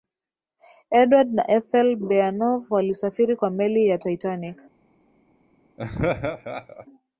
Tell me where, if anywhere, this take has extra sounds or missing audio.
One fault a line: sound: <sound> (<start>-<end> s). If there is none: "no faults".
sound: laugh (5.8-6.9 s)